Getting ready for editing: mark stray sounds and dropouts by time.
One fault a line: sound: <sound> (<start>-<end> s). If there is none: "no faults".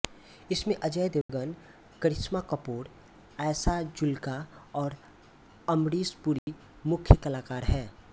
sound: dropout (1.2-1.3 s)
sound: dropout (6.4-6.5 s)